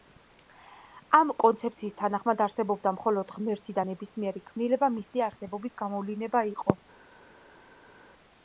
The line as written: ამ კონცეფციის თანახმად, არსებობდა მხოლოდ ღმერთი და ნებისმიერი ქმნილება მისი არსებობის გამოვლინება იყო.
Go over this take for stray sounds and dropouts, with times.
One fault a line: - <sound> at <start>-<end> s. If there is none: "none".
none